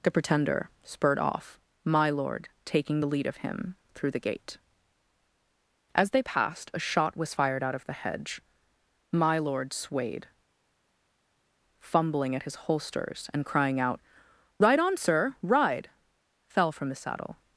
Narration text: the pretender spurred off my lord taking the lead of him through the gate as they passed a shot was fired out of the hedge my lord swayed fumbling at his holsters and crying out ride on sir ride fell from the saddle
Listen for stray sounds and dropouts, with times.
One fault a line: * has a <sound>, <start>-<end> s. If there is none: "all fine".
all fine